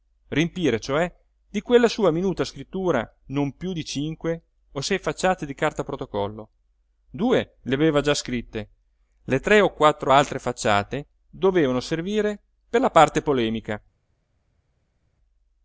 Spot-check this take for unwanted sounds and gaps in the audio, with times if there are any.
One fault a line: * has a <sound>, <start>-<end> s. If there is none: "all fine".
all fine